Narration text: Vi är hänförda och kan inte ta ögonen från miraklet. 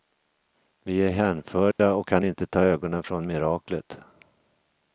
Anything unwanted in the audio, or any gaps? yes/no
yes